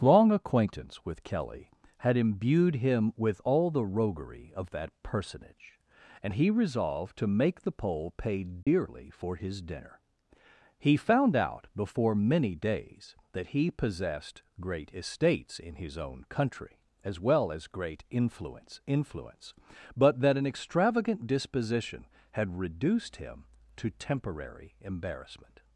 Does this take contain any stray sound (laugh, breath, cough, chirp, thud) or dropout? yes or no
yes